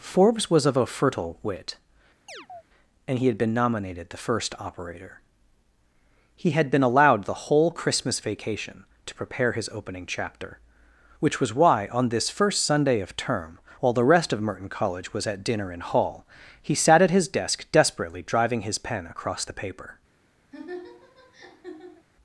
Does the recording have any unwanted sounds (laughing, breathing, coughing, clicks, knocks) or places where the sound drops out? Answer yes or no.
yes